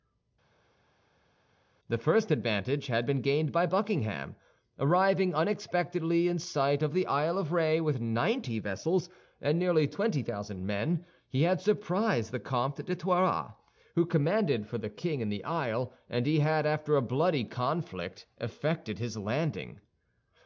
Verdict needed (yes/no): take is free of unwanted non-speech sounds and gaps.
yes